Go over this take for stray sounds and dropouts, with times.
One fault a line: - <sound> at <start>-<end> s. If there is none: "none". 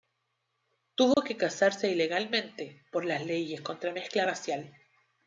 - dropout at 1.1-1.2 s